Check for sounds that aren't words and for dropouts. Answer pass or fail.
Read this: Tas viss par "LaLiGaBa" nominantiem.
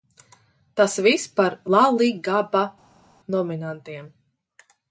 pass